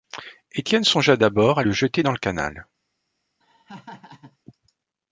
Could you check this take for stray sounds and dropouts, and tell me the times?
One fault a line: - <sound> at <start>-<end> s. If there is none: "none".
- laugh at 3.4-4.4 s